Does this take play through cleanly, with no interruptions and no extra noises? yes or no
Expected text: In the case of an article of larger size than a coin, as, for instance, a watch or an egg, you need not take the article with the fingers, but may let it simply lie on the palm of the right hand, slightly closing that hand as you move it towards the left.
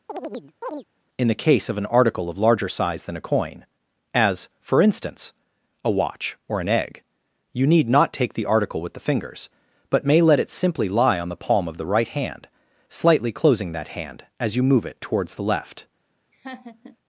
no